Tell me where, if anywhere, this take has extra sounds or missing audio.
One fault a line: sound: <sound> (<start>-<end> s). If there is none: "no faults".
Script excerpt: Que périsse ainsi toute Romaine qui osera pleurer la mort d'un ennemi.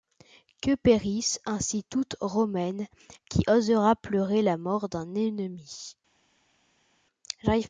no faults